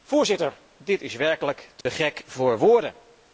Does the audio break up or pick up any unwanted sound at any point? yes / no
yes